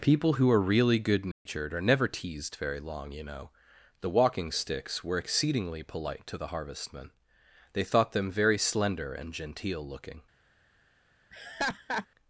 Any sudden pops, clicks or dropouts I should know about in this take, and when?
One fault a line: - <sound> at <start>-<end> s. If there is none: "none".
- dropout at 1.3-1.5 s
- laugh at 11.3-12.1 s